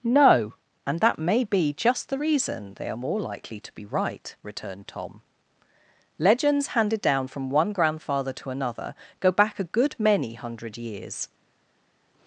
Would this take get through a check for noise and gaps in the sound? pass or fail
pass